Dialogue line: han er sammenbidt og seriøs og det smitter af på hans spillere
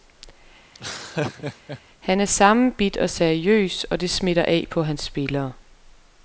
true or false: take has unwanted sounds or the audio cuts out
true